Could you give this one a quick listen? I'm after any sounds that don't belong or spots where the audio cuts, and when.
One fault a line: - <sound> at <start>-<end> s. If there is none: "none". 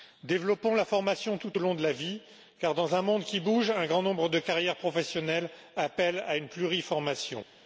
none